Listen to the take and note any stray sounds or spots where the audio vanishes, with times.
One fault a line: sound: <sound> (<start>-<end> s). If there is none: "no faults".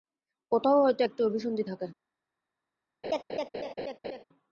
sound: laugh (3.0-4.2 s)